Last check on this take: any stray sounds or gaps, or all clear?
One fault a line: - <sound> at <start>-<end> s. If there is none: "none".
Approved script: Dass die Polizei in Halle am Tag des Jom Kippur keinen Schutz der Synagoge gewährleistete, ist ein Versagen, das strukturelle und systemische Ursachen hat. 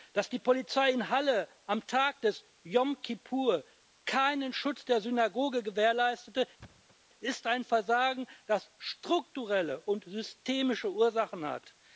- thud at 6.6-7.0 s